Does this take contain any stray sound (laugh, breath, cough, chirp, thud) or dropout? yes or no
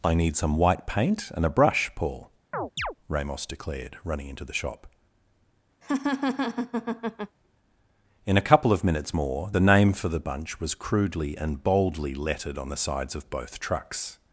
yes